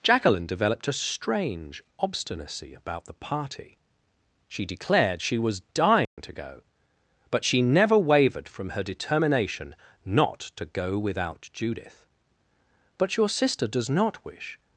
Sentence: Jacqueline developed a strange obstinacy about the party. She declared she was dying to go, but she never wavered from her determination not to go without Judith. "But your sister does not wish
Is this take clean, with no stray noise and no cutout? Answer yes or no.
no